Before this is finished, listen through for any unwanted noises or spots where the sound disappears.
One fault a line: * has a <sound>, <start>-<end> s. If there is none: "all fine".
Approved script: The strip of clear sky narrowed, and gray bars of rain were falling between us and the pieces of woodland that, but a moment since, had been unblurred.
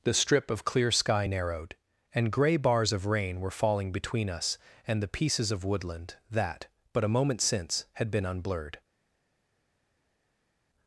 all fine